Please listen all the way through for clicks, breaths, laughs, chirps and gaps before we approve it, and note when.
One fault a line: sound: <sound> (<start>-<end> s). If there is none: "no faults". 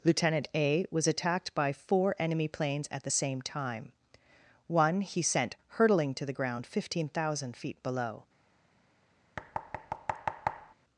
sound: thud (9.4-10.7 s)